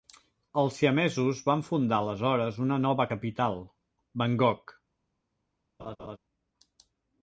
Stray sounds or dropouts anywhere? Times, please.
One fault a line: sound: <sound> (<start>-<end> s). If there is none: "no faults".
sound: laugh (5.8-6.2 s)